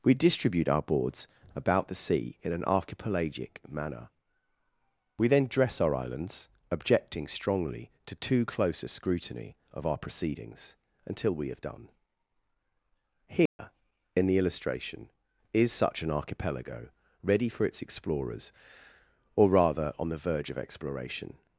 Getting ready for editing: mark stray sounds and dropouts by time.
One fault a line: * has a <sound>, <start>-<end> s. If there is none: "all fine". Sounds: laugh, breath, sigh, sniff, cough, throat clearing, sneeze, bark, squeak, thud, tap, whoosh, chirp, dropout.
* has a dropout, 13.5-13.6 s